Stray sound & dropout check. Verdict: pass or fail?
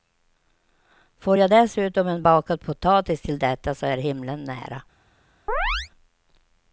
fail